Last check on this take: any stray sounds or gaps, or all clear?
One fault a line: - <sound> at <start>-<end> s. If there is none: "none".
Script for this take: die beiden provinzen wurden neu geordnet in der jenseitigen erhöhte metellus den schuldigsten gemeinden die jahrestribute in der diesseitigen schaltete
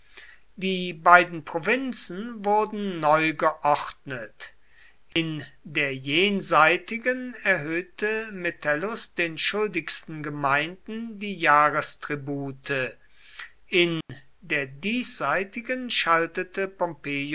- dropout at 5.1-5.2 s
- dropout at 14.0-14.1 s